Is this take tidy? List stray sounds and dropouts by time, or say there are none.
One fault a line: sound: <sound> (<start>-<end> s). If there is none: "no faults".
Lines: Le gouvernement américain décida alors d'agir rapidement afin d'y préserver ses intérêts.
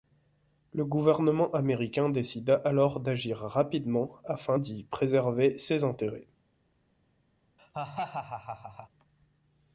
sound: laugh (7.6-8.9 s)